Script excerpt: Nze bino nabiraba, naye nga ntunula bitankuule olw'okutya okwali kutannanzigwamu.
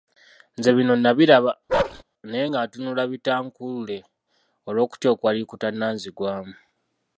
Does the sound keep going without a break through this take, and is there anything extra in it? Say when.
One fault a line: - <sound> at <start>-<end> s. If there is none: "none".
- bark at 1.7-2.0 s